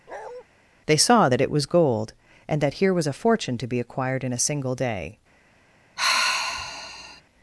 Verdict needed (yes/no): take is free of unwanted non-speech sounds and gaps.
no